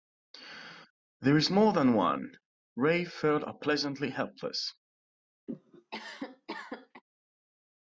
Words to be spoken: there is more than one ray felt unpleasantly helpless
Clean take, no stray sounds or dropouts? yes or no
no